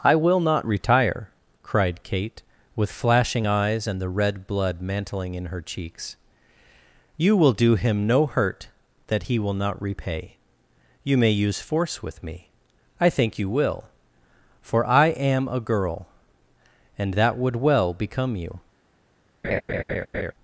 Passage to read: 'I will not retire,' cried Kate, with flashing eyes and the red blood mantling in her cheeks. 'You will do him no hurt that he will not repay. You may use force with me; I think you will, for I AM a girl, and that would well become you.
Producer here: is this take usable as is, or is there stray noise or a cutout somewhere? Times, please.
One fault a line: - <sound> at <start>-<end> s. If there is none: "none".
- laugh at 19.4-20.3 s